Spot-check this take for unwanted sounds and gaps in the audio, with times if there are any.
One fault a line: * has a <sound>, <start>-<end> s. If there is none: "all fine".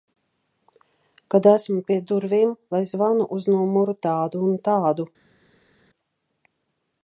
all fine